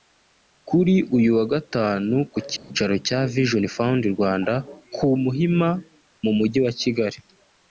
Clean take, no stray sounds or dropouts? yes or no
no